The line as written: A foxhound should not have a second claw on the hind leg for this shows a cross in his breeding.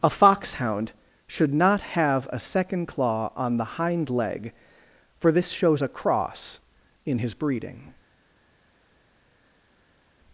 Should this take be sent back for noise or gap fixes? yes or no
no